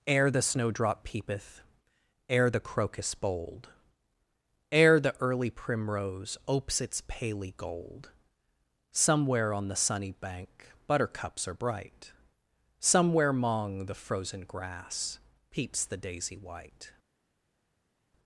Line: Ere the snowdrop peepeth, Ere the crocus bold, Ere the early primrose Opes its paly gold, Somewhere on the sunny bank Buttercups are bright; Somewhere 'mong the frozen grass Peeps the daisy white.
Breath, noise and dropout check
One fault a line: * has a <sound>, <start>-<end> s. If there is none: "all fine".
all fine